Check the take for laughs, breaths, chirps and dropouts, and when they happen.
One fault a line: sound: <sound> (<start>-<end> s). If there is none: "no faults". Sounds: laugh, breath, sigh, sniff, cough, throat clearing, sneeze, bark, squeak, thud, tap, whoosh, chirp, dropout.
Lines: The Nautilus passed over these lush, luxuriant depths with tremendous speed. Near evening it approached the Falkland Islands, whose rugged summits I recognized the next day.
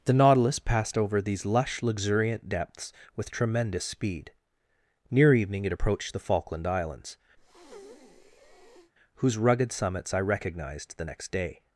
sound: breath (7.4-8.9 s)